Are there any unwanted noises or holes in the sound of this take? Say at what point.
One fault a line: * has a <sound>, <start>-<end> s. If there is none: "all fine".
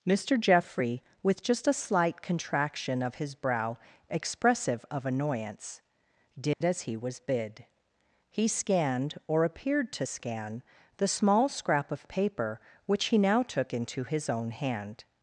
* has a dropout, 6.5-6.6 s